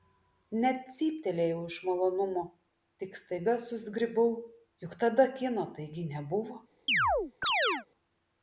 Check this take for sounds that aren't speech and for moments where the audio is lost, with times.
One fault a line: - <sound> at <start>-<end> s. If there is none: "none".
- chirp at 6.9-7.9 s